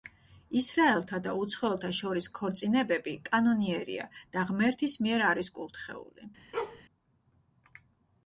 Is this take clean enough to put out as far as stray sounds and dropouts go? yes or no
no